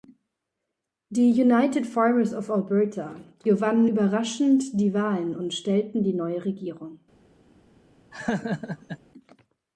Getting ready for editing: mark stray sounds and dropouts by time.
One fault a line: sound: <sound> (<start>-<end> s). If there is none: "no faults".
sound: laugh (8.1-9.0 s)